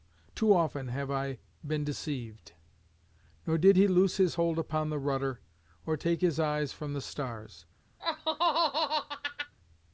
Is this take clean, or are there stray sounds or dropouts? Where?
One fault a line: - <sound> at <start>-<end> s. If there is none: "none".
- laugh at 8.0-9.5 s